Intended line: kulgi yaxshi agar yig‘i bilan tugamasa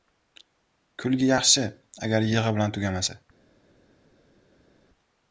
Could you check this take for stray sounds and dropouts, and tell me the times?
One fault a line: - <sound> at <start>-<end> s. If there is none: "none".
none